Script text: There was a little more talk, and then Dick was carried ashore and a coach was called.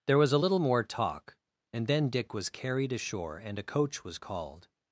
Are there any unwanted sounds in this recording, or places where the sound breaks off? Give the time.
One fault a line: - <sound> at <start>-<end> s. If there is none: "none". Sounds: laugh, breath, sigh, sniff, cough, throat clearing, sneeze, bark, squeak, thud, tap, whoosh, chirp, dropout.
none